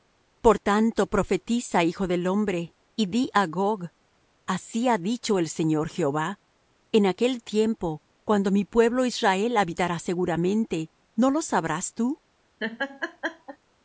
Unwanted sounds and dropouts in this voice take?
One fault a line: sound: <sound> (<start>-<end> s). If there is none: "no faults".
sound: laugh (12.6-13.6 s)